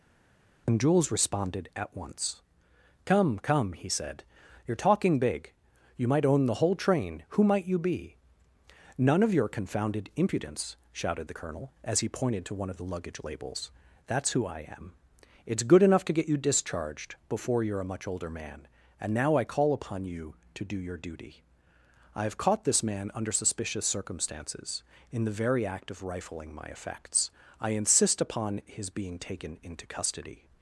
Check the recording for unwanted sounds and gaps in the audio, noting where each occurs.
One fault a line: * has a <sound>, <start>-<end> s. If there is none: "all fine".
all fine